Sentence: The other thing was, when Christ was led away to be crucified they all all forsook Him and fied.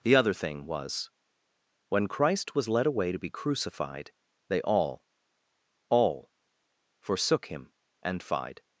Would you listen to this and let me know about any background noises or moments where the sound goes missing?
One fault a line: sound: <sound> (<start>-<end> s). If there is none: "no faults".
no faults